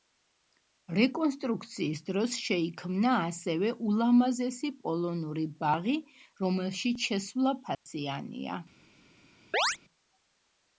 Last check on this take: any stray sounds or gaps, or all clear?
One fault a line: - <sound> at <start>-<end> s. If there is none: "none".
- dropout at 7.7-7.9 s
- chirp at 9.5-9.8 s